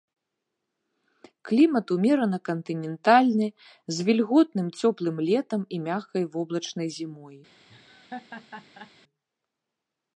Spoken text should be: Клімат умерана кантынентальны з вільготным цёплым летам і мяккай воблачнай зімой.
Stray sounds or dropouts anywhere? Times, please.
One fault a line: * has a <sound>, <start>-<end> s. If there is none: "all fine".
* has a laugh, 7.7-8.9 s